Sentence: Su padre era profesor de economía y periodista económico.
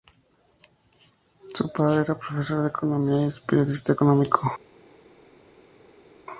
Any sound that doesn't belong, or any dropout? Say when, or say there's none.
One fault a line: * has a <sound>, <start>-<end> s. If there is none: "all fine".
all fine